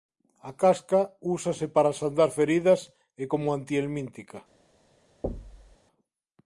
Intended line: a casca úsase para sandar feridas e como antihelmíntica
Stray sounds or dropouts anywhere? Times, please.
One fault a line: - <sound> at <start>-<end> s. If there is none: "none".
- thud at 5.2-5.8 s